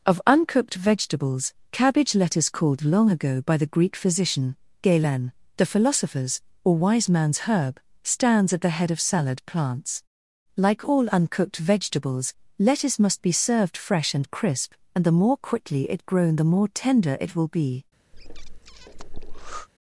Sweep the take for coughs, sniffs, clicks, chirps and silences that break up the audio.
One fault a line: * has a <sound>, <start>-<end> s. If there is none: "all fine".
* has a breath, 18.1-19.7 s